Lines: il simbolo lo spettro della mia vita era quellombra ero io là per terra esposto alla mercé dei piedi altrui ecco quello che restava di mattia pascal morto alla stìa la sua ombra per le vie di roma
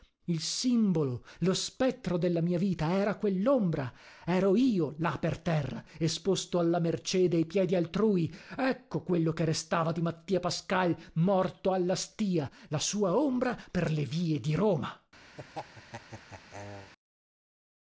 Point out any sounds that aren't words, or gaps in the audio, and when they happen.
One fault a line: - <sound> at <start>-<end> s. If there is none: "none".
- laugh at 15.4-16.9 s